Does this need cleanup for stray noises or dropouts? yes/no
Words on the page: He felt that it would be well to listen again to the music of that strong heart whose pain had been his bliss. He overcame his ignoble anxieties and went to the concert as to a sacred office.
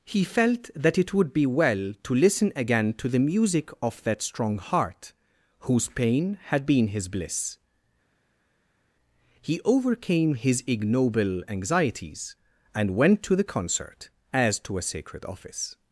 no